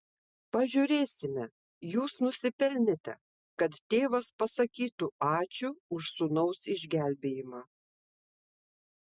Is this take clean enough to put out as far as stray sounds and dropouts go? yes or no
yes